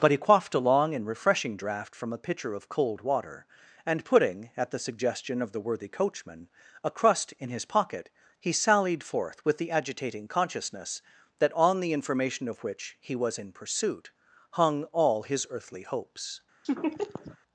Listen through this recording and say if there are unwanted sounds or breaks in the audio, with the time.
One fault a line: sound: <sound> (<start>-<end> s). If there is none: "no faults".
sound: laugh (16.6-17.4 s)